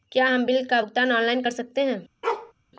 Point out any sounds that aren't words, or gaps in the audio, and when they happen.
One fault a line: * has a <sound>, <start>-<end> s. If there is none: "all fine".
* has a bark, 2.2-2.5 s